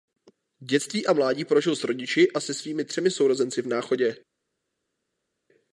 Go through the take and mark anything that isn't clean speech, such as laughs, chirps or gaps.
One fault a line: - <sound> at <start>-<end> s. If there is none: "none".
none